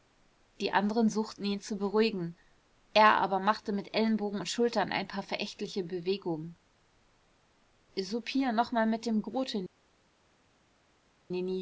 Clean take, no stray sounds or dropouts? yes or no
yes